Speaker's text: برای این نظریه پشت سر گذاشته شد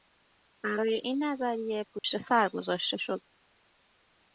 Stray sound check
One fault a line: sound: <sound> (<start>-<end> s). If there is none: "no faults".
sound: dropout (2.0-2.0 s)